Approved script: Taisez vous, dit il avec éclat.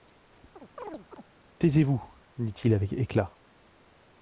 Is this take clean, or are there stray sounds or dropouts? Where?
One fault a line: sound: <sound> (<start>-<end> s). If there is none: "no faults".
sound: chirp (0.6-1.3 s)